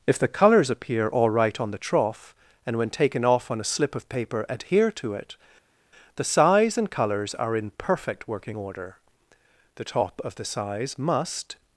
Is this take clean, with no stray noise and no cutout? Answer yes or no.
yes